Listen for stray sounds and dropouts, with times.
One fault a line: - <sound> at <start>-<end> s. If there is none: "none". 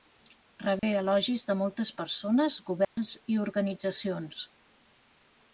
- dropout at 0.8-0.8 s
- dropout at 2.8-3.0 s